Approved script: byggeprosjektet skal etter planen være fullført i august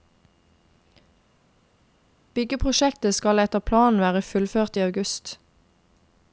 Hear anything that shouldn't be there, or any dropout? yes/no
no